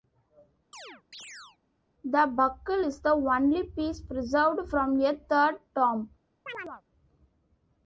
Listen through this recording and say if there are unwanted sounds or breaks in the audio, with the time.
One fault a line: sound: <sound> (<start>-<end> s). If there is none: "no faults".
sound: chirp (0.7-1.6 s)
sound: chirp (6.5-6.8 s)